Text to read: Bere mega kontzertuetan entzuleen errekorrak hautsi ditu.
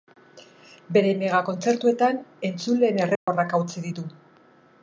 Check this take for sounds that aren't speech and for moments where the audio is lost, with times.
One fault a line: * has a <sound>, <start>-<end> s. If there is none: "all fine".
* has a dropout, 3.2-3.3 s